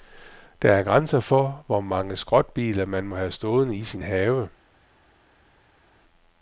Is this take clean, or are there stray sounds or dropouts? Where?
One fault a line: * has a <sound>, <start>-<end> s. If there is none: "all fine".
all fine